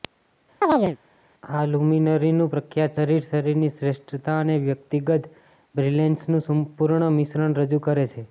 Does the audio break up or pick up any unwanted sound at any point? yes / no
yes